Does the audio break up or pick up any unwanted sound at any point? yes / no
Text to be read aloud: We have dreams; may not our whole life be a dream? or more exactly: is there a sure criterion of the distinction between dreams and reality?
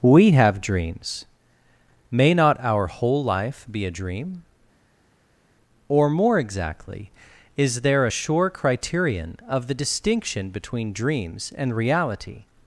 no